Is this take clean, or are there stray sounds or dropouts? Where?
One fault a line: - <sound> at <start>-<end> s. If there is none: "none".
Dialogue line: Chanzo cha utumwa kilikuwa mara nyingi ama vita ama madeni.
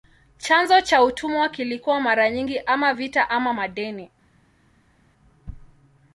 none